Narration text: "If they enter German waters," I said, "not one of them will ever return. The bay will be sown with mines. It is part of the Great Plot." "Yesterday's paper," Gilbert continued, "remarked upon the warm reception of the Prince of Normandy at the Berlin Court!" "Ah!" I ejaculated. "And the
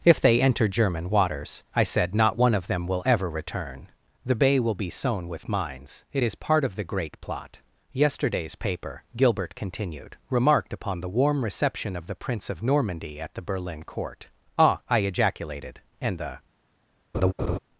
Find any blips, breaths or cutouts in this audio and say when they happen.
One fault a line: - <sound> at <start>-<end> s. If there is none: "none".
- laugh at 17.1-17.6 s